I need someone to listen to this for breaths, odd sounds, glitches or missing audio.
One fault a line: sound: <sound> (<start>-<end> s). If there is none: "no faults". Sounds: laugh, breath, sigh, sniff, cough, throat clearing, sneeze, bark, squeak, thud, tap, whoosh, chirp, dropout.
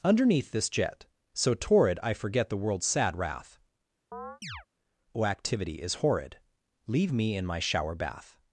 sound: chirp (4.1-4.7 s)